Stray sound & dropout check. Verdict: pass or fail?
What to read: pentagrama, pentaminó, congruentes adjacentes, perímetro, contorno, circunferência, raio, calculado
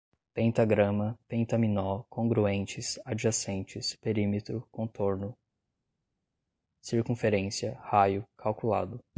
pass